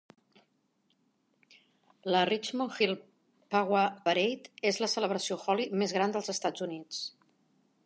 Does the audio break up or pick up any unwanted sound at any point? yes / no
no